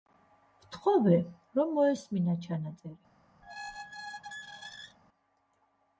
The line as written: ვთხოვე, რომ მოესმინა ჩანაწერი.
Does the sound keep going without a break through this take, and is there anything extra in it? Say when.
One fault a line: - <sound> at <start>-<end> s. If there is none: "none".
- squeak at 3.4-5.0 s